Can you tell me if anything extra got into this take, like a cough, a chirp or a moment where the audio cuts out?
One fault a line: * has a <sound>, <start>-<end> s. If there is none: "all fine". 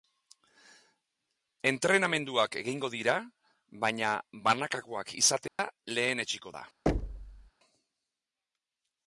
* has a dropout, 5.5-5.6 s
* has a thud, 6.9-7.5 s